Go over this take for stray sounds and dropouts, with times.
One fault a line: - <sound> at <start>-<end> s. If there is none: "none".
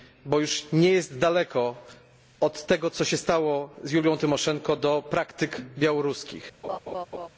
- laugh at 6.6-7.3 s